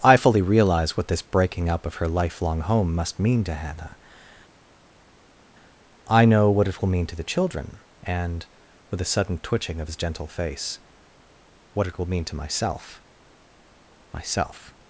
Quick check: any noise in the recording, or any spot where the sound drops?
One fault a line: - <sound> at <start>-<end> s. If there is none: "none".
none